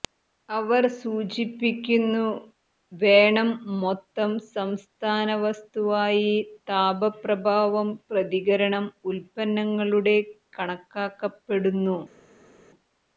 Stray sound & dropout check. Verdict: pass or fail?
pass